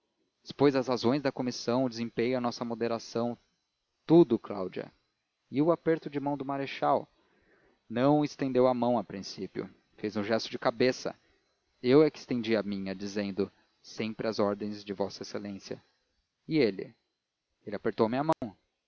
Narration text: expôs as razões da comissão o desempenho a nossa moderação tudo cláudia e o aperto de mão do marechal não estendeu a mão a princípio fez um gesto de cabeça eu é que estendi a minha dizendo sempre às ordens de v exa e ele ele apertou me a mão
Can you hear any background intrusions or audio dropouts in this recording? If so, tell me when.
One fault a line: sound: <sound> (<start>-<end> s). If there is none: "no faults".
sound: dropout (18.3-18.4 s)